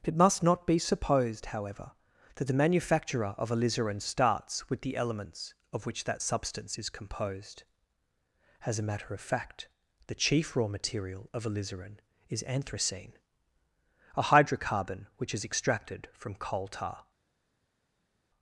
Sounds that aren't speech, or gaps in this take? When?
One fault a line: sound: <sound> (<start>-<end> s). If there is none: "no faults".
no faults